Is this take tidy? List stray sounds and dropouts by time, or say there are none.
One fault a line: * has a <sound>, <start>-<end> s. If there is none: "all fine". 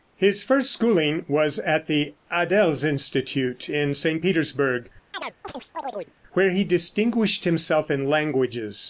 * has a chirp, 5.1-6.1 s